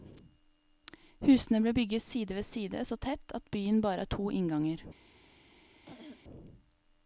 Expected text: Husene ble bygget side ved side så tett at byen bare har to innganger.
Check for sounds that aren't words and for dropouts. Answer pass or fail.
fail